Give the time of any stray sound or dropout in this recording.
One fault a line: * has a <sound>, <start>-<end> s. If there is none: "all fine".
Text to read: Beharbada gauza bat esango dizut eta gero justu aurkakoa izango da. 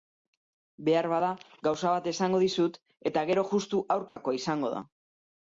* has a dropout, 4.1-4.2 s